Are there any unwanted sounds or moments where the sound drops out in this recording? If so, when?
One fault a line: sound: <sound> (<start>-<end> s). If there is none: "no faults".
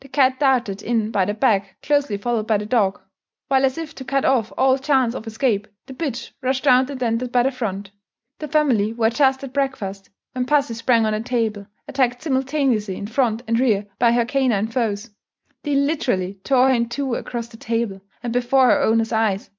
no faults